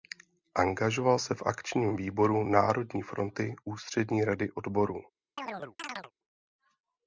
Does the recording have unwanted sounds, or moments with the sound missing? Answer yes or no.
yes